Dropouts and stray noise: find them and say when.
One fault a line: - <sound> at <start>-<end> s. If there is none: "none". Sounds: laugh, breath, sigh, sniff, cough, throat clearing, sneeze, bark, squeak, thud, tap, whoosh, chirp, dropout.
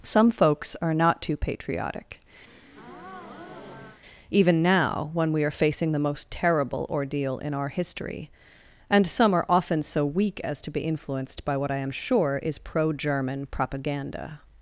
- breath at 2.5-4.0 s